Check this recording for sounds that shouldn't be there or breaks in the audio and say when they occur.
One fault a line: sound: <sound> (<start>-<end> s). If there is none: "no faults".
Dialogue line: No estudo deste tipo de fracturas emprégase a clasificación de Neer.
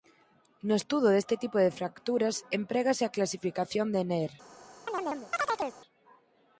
sound: chirp (4.9-5.8 s)